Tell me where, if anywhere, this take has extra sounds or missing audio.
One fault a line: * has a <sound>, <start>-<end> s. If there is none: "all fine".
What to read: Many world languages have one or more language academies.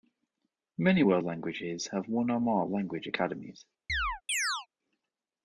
* has a chirp, 3.9-4.7 s